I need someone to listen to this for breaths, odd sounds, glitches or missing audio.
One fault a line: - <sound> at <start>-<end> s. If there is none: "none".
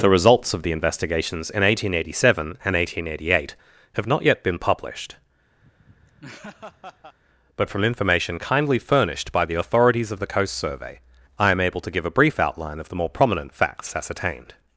- laugh at 5.6-7.2 s